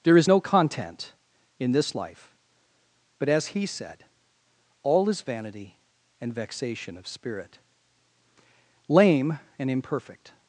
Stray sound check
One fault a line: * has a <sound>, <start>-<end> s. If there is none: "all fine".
all fine